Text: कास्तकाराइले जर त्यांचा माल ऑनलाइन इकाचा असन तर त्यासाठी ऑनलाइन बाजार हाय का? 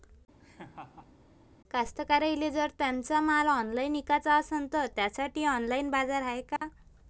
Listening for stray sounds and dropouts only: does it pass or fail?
fail